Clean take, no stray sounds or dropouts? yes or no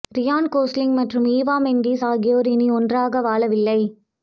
yes